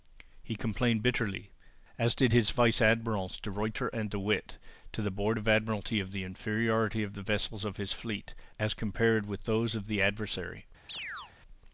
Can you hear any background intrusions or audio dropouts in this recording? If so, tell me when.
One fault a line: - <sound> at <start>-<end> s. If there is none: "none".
- chirp at 10.9-11.3 s